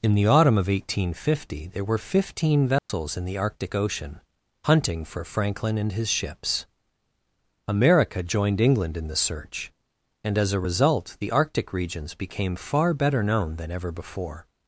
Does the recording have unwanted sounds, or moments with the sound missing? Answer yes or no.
yes